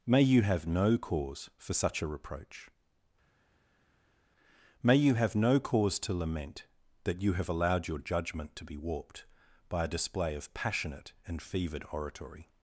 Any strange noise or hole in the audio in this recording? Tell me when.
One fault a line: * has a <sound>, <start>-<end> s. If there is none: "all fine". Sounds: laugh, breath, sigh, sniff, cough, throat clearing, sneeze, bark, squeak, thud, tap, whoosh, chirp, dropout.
all fine